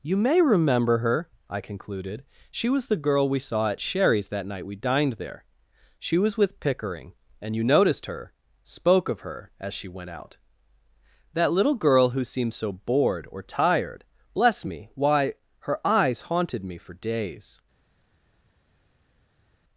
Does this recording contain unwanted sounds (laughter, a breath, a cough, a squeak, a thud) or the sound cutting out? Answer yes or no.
no